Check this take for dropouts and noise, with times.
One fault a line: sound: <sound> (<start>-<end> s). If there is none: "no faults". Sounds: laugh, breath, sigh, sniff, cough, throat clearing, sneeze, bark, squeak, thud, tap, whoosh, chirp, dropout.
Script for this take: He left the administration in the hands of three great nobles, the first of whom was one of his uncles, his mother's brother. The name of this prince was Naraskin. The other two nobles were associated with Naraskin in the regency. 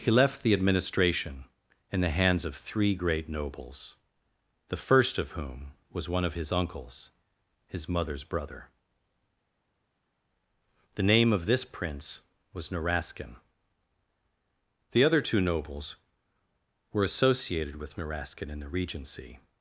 no faults